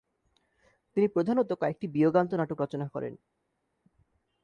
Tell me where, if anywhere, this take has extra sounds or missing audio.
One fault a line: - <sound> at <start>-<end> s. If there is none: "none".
none